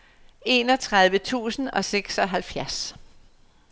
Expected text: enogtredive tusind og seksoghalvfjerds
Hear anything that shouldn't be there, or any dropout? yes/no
no